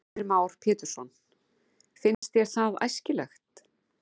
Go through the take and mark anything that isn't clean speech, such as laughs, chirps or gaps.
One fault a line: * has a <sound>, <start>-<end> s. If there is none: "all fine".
* has a dropout, 2.1-2.2 s